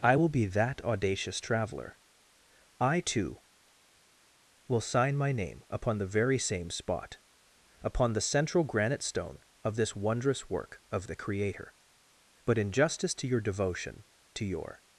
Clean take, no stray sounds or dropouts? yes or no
yes